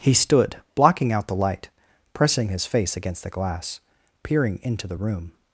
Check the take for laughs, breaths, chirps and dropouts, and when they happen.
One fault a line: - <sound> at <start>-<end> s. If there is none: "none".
none